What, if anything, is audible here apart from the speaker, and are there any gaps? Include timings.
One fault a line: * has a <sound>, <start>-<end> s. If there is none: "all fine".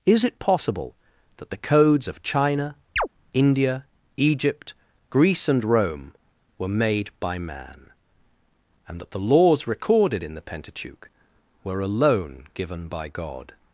* has a chirp, 3.0-3.1 s